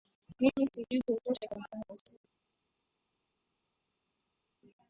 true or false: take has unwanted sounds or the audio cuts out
false